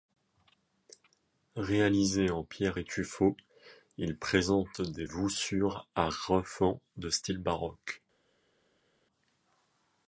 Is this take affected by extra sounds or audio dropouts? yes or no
no